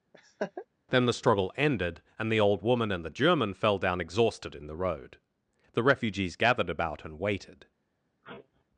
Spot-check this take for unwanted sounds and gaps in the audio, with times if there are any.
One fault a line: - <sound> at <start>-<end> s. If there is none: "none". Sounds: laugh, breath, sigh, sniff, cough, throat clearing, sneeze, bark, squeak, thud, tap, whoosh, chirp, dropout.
- laugh at 0.1-0.7 s
- sneeze at 8.2-8.6 s